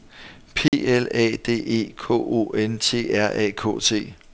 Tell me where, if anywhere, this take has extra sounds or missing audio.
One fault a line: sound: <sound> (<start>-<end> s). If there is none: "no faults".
sound: dropout (0.7-0.7 s)